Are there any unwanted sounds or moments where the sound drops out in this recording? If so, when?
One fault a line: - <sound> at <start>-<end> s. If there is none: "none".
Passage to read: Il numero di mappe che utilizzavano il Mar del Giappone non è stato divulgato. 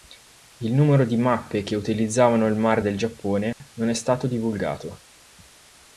- dropout at 3.5-3.6 s